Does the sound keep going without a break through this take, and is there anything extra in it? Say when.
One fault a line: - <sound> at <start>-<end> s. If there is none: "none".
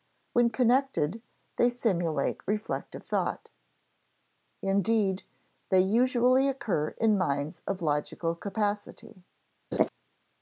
- laugh at 9.7-9.9 s